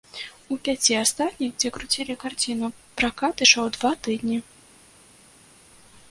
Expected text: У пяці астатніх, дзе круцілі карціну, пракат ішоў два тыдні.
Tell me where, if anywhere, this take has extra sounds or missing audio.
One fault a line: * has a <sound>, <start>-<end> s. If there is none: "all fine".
all fine